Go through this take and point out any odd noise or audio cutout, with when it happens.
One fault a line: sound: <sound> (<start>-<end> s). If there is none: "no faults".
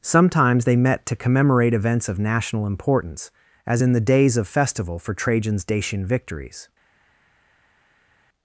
no faults